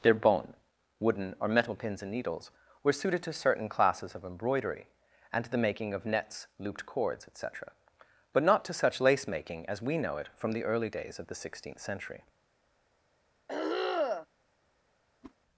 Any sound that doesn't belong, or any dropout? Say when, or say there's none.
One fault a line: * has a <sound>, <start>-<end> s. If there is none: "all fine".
* has a throat clearing, 13.5-14.3 s
* has a whoosh, 15.2-15.3 s